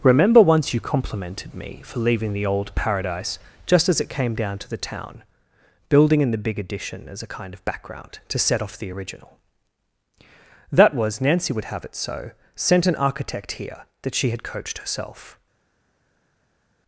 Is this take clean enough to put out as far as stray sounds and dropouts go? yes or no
yes